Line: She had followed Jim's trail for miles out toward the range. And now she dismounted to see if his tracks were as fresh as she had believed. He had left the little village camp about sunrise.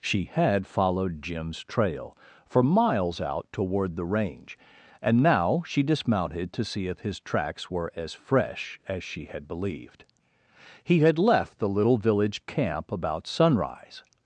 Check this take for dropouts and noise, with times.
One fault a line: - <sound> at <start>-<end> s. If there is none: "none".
none